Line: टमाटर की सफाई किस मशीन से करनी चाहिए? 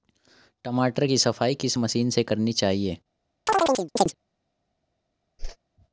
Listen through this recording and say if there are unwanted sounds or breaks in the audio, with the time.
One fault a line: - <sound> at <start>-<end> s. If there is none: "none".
- chirp at 3.5-4.1 s
- whoosh at 5.4-5.6 s